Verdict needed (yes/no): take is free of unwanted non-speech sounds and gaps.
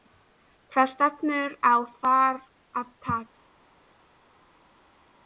yes